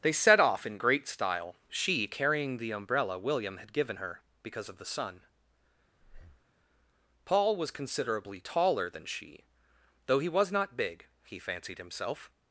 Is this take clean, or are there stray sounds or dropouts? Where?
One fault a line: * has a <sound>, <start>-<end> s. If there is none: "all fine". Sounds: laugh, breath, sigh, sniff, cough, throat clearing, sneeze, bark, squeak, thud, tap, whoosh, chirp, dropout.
* has a breath, 6.0-6.5 s